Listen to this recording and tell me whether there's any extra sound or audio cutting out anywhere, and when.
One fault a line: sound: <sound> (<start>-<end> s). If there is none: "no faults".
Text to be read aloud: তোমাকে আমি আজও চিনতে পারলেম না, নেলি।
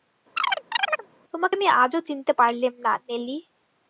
sound: chirp (0.4-1.1 s)